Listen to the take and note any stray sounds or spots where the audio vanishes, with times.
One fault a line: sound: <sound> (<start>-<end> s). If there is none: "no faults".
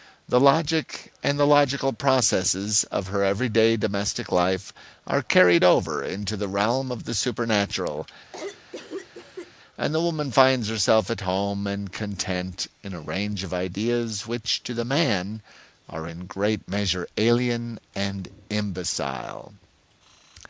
sound: cough (8.3-9.5 s)